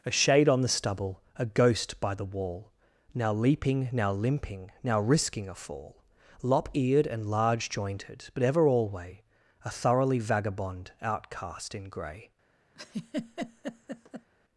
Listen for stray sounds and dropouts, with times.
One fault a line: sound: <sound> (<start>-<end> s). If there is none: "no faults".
sound: laugh (12.8-14.3 s)